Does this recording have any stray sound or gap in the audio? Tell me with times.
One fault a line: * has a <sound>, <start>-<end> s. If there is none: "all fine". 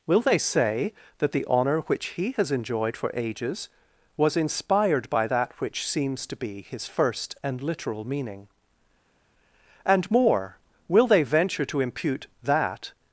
all fine